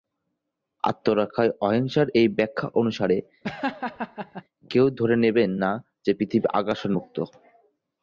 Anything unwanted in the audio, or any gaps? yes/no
yes